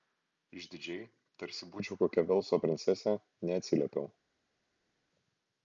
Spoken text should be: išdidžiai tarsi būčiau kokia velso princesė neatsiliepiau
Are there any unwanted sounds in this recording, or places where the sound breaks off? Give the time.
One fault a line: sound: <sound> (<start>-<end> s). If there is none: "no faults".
no faults